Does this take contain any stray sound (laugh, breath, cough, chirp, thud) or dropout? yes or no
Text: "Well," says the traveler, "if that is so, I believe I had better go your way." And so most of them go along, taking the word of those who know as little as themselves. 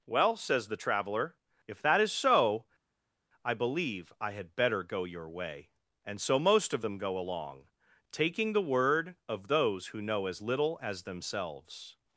no